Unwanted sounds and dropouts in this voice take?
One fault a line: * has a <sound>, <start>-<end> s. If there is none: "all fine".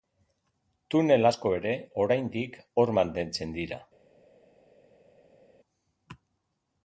all fine